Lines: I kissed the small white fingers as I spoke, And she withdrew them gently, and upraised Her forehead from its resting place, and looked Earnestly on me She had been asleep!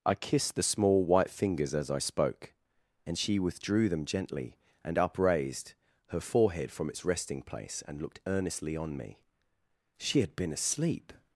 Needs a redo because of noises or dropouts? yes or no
no